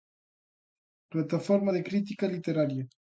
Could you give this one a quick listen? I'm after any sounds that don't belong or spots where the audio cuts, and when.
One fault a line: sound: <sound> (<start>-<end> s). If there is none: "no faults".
no faults